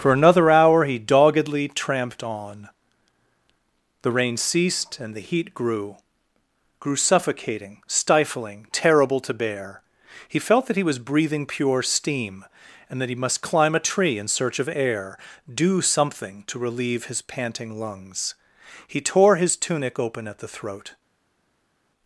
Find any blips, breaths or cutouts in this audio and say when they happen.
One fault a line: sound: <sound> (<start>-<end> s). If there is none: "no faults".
no faults